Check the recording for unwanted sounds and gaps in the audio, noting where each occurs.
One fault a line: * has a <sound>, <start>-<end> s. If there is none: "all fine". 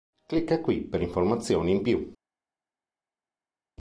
all fine